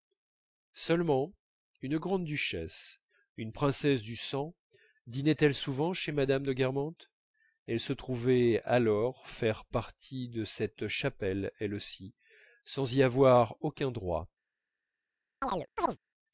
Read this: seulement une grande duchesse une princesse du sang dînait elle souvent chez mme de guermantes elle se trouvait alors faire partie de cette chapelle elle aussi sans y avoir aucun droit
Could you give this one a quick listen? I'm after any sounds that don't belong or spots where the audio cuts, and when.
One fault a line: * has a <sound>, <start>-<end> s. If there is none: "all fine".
* has a chirp, 15.4-16.0 s